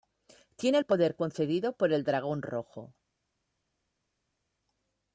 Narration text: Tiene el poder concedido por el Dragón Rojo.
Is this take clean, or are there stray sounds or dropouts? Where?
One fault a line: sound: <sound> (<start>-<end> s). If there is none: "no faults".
no faults